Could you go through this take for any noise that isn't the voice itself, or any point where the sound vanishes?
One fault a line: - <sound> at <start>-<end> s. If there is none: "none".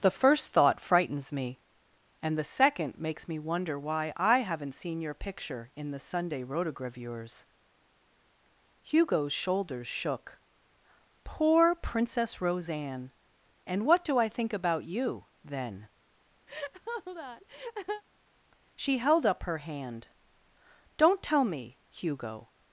- laugh at 16.5-18.0 s